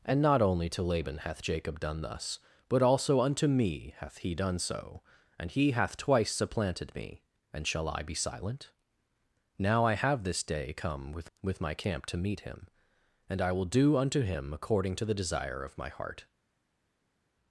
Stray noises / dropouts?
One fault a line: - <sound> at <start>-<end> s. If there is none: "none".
none